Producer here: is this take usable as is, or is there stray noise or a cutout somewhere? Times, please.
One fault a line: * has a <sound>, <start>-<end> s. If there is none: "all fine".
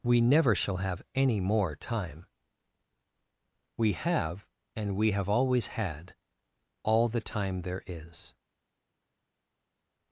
all fine